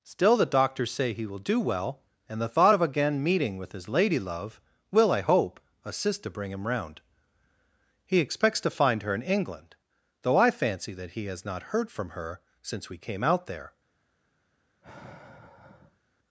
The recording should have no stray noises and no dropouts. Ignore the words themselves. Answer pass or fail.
fail